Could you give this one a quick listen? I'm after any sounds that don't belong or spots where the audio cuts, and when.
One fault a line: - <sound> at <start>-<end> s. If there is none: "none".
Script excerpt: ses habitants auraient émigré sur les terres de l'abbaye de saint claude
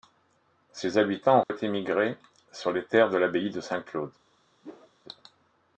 - dropout at 1.4-1.5 s
- whoosh at 4.6-4.9 s